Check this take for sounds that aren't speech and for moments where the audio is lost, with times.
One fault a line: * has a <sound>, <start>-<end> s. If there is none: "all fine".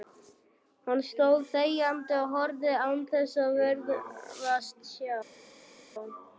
all fine